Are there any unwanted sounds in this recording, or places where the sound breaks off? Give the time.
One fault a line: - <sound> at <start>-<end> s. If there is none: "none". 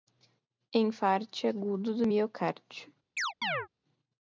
- chirp at 3.2-3.7 s